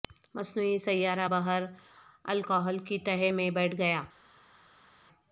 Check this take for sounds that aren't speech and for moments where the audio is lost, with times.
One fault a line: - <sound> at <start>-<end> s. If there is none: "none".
none